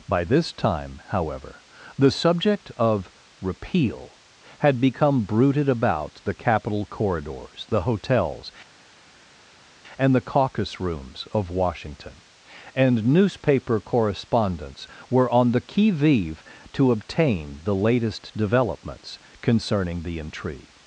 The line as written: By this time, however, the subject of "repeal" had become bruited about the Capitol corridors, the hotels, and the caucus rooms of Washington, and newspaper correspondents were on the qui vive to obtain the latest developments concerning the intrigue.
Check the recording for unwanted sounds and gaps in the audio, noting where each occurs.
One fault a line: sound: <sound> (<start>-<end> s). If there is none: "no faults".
no faults